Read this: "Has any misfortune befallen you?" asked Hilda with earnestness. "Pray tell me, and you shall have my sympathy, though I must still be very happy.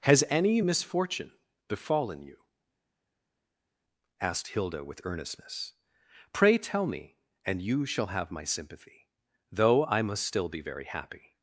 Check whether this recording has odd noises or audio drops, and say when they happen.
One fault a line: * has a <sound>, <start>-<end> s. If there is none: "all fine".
all fine